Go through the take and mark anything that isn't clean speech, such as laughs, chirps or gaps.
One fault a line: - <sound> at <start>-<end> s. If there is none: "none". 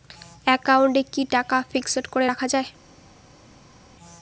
none